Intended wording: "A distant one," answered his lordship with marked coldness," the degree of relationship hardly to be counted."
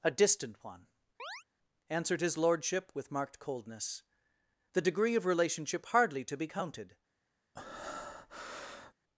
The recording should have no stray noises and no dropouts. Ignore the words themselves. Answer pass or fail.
fail